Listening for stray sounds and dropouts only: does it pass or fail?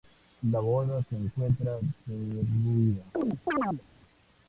fail